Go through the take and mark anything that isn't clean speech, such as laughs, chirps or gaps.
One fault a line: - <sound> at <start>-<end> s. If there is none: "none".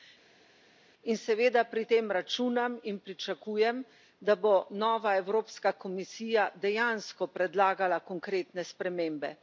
none